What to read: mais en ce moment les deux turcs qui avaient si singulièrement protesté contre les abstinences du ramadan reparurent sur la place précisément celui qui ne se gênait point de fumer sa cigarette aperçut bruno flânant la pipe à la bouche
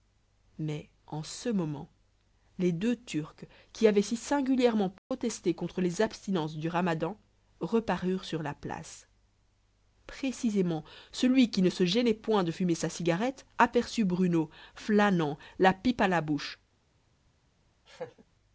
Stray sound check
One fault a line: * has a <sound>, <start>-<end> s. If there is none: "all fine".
* has a dropout, 5.0-5.1 s
* has a laugh, 17.9-18.2 s